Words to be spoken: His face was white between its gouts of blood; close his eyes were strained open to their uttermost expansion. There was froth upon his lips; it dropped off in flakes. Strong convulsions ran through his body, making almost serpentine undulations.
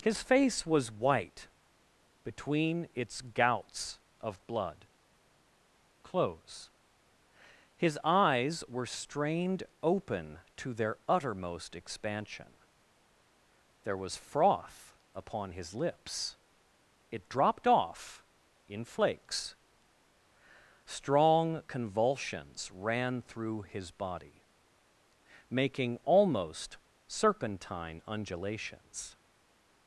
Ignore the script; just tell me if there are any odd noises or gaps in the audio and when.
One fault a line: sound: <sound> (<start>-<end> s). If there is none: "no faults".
no faults